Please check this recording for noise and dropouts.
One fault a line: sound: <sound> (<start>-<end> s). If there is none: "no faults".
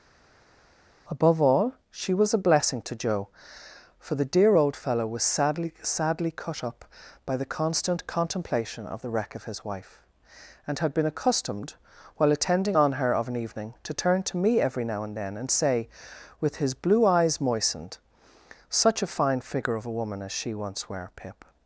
no faults